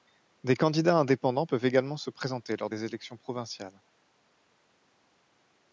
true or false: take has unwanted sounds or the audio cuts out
false